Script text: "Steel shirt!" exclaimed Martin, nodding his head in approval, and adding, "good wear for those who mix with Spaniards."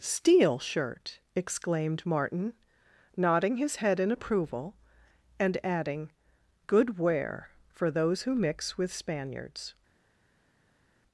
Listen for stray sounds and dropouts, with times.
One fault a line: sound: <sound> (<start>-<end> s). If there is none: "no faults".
no faults